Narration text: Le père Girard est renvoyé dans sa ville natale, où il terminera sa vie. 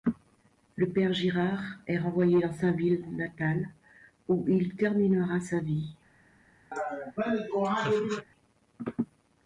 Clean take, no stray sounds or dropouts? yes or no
no